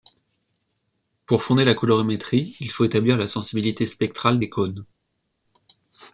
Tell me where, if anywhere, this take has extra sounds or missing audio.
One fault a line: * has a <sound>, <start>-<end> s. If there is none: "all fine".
all fine